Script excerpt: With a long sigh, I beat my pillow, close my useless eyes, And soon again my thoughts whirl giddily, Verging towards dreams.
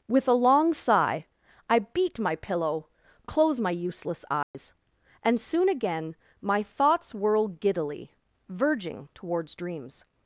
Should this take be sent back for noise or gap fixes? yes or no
yes